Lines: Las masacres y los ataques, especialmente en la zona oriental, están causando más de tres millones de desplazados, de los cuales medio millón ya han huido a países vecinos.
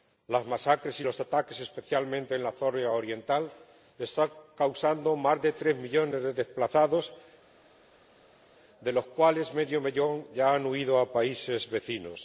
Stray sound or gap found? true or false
false